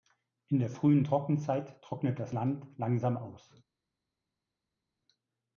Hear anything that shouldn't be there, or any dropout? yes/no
no